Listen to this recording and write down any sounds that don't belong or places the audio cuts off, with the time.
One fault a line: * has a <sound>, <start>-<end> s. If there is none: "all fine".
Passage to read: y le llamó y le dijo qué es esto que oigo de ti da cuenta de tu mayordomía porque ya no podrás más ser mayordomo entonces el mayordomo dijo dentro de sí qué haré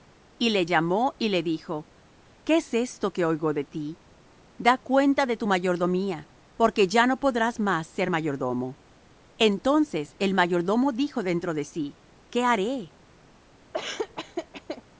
* has a laugh, 13.7-14.8 s